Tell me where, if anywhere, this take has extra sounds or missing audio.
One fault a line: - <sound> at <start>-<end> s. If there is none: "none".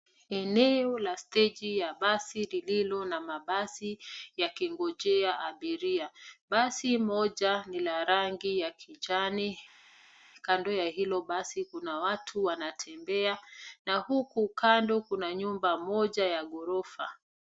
none